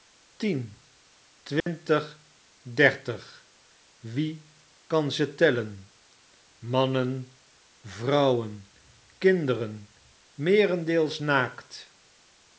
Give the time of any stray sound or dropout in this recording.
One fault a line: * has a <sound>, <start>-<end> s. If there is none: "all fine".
* has a dropout, 1.6-1.7 s